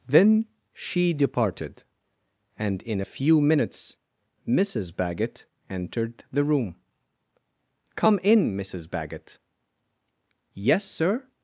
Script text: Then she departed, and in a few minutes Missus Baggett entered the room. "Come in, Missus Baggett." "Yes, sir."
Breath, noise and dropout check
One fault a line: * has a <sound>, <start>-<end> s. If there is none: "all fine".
all fine